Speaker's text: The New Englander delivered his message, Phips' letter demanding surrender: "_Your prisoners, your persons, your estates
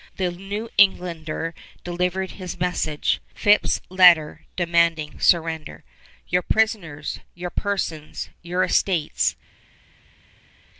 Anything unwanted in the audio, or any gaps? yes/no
no